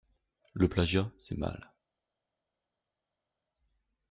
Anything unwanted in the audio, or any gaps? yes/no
no